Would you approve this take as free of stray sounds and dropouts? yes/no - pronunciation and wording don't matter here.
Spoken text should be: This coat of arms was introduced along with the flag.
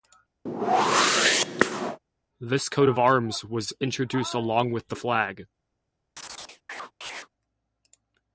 no